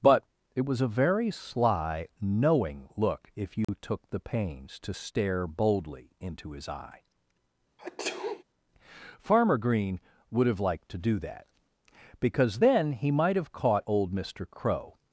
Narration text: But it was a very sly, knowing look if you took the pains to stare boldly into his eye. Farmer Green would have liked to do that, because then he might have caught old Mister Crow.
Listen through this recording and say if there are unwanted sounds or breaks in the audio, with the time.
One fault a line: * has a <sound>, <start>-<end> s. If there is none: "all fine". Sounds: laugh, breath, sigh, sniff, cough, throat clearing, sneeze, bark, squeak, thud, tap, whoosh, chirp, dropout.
* has a dropout, 3.6-3.7 s
* has a sneeze, 7.8-8.4 s